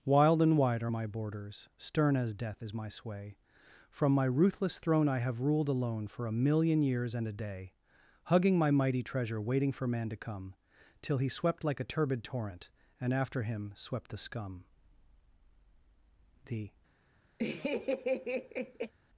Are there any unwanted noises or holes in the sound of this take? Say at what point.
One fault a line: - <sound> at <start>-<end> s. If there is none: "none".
- laugh at 17.4-18.9 s